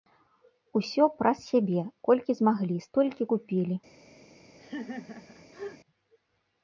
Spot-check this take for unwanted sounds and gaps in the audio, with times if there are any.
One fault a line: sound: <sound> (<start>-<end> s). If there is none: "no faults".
sound: laugh (4.6-5.8 s)